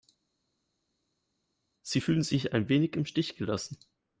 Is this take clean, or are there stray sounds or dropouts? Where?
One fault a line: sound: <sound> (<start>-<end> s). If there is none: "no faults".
no faults